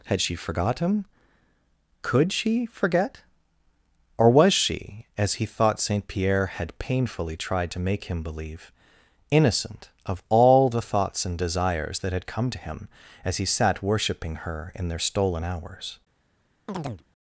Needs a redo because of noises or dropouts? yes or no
yes